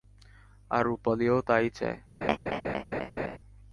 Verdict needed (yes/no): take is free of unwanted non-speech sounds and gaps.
no